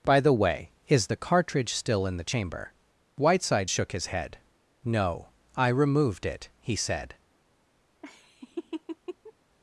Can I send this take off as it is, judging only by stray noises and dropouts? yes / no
no